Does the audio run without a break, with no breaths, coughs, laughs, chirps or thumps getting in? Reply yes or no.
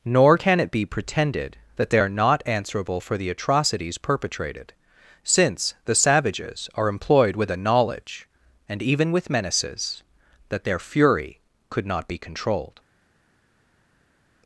yes